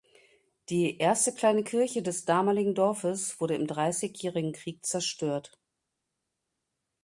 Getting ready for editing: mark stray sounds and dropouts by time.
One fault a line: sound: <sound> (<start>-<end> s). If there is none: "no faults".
no faults